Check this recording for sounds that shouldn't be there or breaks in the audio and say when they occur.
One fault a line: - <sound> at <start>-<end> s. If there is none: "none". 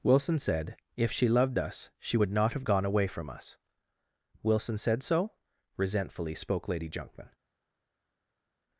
none